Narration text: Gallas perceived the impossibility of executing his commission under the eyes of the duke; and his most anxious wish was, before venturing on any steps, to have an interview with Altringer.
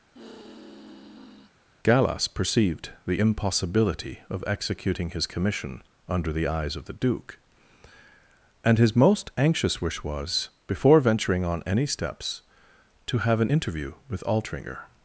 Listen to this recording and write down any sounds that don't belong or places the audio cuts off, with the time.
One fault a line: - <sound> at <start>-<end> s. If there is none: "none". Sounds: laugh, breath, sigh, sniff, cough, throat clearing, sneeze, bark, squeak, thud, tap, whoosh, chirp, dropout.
- sigh at 0.1-1.5 s